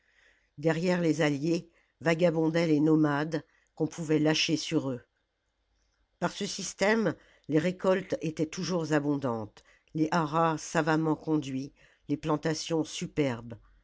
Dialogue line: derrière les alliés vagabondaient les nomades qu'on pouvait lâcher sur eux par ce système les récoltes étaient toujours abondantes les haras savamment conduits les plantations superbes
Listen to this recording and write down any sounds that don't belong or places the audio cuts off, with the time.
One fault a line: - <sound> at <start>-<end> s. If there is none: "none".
none